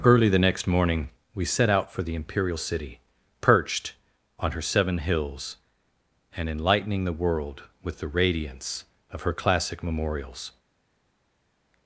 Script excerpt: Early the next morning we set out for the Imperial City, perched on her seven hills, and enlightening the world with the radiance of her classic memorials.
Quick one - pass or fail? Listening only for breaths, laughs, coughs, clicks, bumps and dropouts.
pass